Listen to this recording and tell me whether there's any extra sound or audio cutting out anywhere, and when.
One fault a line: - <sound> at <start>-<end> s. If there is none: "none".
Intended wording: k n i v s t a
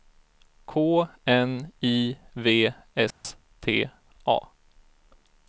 - dropout at 3.1-3.2 s